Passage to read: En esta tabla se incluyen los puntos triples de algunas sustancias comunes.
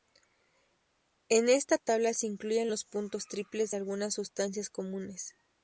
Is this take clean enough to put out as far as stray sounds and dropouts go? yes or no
yes